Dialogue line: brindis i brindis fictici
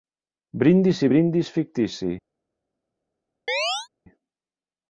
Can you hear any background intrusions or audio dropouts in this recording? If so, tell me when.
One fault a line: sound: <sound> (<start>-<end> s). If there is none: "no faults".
sound: chirp (3.5-3.9 s)